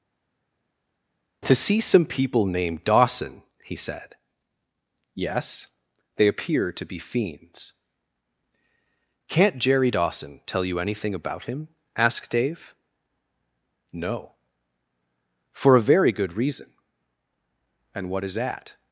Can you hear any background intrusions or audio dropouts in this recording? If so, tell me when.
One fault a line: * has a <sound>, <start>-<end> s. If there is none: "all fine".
all fine